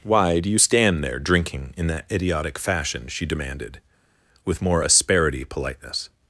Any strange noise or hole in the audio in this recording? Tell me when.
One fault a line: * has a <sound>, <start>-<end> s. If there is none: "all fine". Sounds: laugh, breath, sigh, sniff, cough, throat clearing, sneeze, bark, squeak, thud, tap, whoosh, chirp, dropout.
all fine